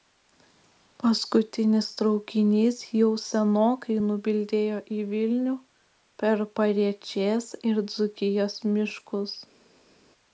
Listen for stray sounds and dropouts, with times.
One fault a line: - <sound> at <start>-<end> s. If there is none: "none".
none